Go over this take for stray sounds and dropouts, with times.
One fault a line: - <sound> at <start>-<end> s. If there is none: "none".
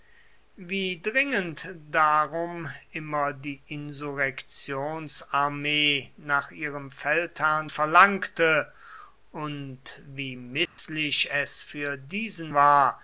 - dropout at 10.7-10.8 s